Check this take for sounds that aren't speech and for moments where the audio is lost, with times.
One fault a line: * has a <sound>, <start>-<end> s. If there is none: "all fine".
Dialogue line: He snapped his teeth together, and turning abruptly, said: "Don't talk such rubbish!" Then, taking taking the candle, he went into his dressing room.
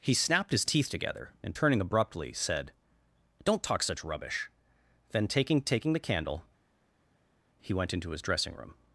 all fine